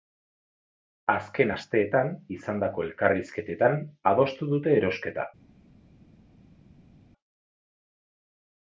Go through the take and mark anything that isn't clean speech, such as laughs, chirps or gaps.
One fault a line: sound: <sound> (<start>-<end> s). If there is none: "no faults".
no faults